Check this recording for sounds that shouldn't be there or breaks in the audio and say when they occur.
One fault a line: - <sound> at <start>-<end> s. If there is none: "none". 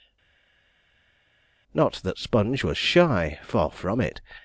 none